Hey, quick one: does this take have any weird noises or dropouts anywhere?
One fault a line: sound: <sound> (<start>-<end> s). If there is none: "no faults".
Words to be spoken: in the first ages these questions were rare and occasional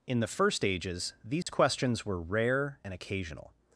sound: dropout (1.4-1.5 s)